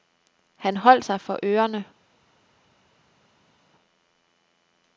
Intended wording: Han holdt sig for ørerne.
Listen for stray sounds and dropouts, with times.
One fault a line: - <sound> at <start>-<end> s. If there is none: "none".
none